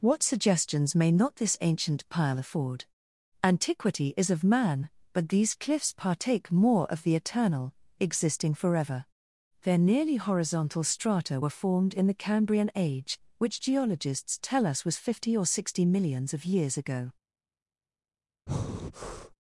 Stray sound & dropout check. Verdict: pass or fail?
fail